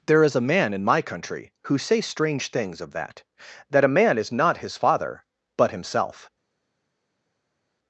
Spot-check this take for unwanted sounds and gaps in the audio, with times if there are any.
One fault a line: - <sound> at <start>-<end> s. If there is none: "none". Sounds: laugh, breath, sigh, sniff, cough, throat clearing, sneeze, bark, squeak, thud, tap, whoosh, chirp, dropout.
none